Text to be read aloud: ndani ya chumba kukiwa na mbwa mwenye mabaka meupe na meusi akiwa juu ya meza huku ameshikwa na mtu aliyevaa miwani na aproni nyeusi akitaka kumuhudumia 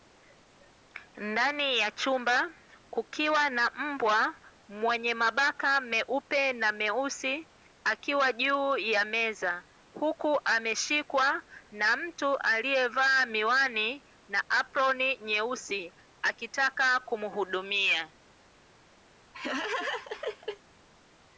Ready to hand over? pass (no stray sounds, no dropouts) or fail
fail